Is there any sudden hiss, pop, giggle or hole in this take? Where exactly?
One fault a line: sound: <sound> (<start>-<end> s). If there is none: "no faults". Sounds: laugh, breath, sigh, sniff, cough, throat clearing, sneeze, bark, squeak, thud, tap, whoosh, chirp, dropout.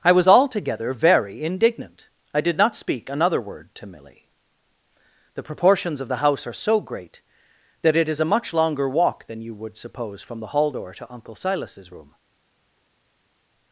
no faults